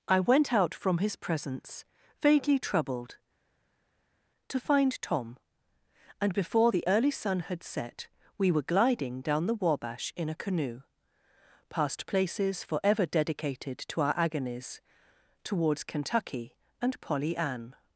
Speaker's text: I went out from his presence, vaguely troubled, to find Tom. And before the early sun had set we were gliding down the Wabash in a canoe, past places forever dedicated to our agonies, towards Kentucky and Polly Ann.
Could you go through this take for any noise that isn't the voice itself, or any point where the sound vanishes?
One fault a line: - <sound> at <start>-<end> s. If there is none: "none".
none